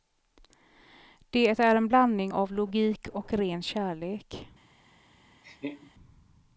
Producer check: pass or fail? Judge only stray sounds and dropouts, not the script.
fail